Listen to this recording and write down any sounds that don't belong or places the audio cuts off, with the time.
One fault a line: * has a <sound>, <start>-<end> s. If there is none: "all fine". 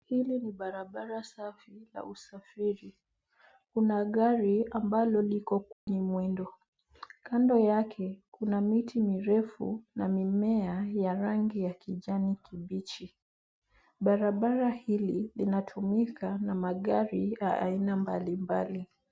* has a dropout, 5.7-5.9 s